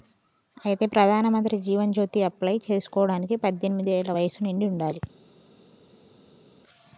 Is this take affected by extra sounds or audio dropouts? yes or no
no